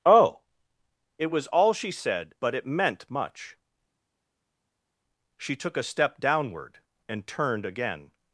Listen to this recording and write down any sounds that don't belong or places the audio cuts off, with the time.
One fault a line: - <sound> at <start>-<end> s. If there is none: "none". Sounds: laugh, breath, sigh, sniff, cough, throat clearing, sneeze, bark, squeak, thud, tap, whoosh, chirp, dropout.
none